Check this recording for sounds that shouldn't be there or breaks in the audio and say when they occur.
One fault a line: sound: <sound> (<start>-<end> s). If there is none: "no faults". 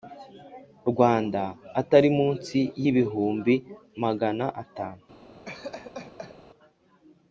sound: laugh (5.5-6.4 s)